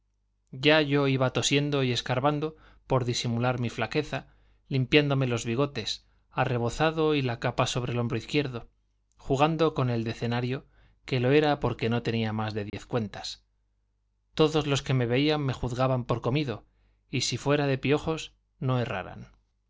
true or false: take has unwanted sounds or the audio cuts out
true